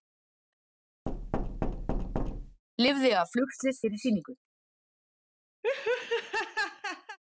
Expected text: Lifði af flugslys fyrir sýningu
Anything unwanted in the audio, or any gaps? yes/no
yes